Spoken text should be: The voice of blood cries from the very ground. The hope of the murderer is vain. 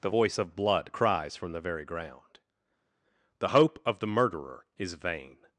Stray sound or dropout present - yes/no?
no